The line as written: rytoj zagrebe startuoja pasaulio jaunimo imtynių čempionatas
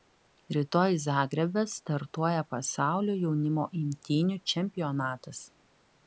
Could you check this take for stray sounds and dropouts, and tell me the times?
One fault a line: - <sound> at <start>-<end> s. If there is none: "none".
none